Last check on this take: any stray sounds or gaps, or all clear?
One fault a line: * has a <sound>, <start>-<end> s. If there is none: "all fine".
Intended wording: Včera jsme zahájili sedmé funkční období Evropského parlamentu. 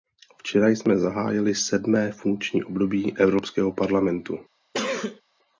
* has a sneeze, 4.7-5.2 s